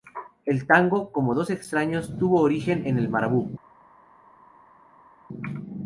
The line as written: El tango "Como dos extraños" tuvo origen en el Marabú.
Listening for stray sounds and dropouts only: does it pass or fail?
pass